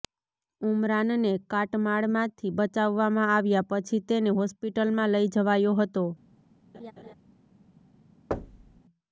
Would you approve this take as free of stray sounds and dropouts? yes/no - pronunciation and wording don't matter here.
no